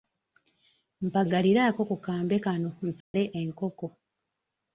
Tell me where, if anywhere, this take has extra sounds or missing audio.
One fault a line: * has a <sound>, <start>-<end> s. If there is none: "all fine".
* has a dropout, 3.0-3.1 s